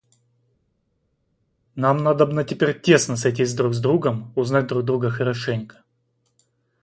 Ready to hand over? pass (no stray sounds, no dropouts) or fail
pass